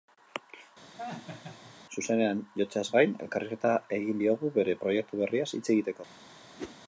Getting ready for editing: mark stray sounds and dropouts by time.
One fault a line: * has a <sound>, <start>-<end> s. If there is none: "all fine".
* has a laugh, 1.0-1.7 s
* has a whoosh, 6.6-6.8 s